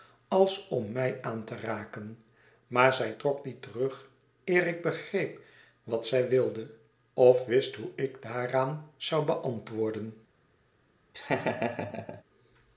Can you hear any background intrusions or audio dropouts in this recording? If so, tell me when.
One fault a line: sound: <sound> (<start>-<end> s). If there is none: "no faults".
sound: laugh (11.1-12.2 s)